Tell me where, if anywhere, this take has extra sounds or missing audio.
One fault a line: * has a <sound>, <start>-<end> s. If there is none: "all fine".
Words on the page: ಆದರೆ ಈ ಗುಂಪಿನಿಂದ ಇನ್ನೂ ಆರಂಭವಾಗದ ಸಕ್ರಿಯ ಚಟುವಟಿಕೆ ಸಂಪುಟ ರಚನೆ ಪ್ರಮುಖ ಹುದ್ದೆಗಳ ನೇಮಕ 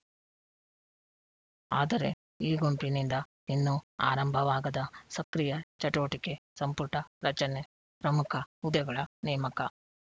all fine